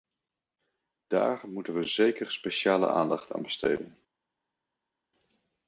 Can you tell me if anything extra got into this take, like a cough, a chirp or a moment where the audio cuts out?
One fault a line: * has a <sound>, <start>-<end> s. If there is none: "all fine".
all fine